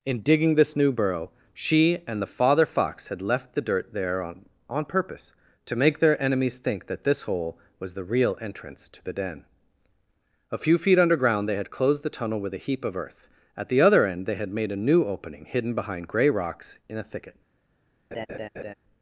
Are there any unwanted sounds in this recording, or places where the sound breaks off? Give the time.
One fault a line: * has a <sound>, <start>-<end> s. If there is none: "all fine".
* has a laugh, 18.1-18.7 s